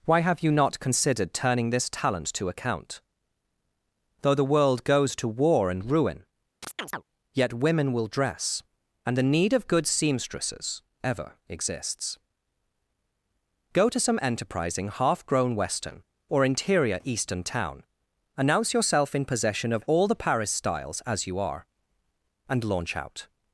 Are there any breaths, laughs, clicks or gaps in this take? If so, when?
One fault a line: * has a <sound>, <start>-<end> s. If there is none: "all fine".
* has a chirp, 6.6-7.0 s